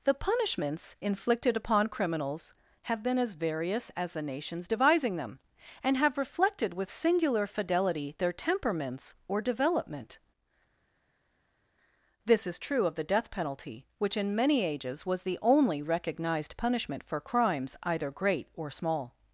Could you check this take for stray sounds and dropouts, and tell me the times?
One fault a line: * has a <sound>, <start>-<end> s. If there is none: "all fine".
all fine